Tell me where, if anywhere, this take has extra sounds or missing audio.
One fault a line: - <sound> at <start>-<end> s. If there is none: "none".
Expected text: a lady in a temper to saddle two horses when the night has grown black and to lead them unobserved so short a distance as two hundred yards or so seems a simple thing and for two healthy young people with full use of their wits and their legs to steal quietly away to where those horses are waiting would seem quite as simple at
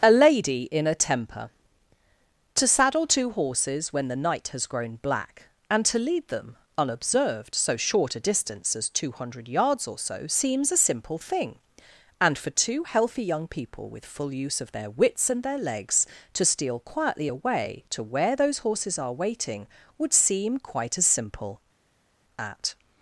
none